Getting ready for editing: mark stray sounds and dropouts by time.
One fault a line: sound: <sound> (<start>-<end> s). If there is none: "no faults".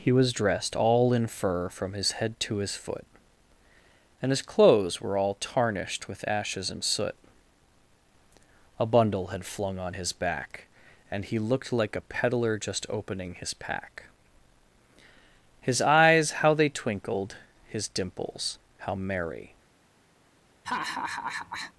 sound: laugh (20.6-21.7 s)